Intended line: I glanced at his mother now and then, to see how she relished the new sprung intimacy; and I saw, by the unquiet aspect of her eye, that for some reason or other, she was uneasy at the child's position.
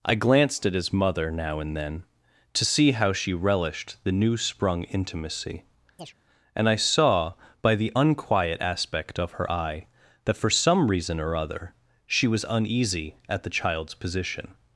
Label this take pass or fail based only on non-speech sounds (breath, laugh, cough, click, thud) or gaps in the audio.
fail